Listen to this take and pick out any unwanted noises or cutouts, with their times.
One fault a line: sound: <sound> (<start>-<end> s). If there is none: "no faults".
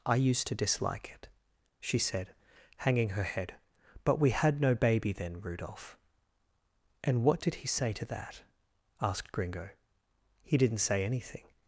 no faults